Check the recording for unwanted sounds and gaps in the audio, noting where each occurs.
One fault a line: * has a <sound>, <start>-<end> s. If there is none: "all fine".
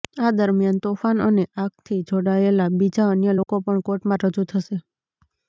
* has a dropout, 3.4-3.5 s